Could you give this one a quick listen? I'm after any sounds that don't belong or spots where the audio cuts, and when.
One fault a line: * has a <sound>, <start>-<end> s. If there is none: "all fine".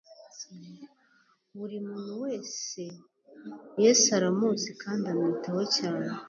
all fine